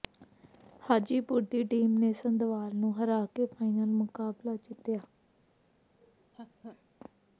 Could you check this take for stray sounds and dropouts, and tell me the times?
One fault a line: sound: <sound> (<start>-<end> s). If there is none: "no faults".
sound: laugh (6.0-6.8 s)